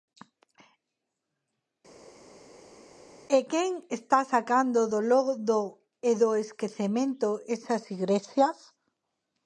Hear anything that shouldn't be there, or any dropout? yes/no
no